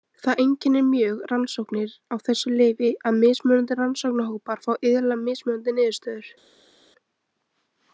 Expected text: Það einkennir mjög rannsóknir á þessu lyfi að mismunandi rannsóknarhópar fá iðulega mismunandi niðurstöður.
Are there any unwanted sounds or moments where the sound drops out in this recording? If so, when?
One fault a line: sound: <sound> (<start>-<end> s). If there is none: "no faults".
no faults